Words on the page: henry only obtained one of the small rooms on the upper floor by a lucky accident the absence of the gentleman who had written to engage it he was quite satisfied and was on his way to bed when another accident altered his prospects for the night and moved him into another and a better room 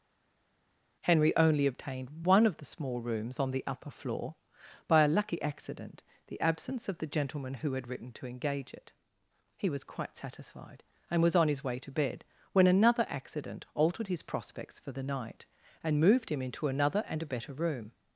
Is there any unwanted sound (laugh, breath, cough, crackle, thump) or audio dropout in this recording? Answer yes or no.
no